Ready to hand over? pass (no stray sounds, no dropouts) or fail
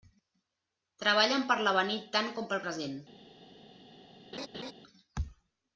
fail